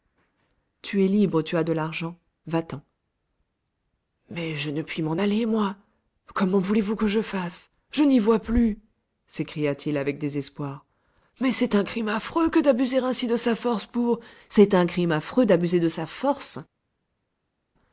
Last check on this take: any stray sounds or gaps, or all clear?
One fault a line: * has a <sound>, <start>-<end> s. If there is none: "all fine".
all fine